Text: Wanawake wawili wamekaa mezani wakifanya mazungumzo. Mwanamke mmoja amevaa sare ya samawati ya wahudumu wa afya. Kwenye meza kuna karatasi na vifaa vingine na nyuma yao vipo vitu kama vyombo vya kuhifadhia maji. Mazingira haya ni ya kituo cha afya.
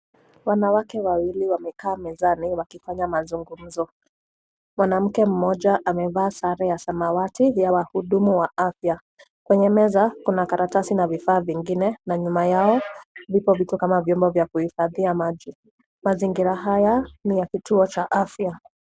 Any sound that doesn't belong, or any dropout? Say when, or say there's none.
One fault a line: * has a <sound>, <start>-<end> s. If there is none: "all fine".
all fine